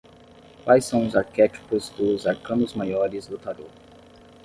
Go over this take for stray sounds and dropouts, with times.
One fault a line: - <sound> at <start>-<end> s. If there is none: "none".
none